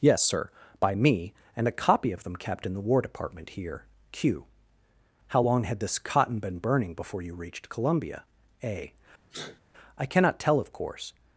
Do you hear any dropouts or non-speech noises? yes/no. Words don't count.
yes